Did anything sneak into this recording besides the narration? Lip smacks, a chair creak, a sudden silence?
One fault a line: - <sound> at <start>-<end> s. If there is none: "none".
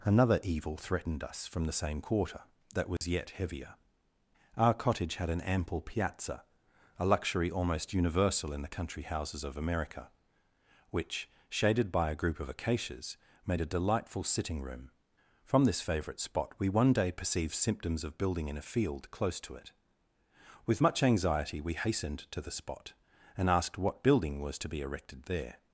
- dropout at 3.0-3.0 s